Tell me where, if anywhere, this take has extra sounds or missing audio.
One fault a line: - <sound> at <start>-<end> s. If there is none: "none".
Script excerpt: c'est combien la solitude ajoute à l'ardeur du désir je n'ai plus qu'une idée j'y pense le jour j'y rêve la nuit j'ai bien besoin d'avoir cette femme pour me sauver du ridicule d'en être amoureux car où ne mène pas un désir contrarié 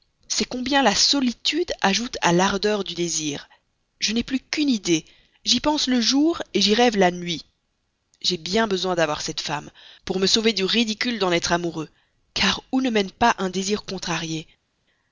none